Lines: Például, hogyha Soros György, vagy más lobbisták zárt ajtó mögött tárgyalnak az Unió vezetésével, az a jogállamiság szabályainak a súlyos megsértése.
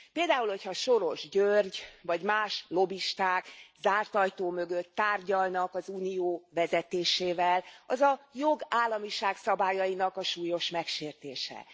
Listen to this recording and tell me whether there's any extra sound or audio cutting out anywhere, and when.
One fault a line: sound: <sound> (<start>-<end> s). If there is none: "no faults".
no faults